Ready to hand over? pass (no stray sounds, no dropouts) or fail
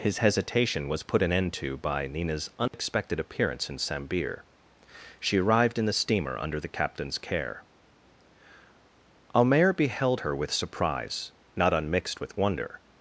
fail